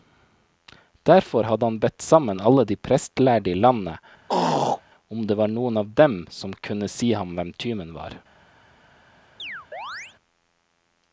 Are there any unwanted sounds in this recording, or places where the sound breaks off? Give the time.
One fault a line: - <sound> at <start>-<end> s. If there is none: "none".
- throat clearing at 4.3-4.8 s
- chirp at 9.4-10.2 s